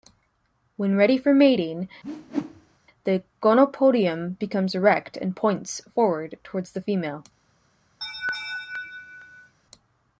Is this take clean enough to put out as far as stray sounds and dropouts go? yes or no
no